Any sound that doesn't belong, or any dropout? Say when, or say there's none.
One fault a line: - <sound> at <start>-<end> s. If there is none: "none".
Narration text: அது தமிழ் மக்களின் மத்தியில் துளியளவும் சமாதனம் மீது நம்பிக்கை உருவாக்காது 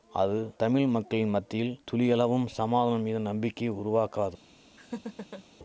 - laugh at 4.8-5.4 s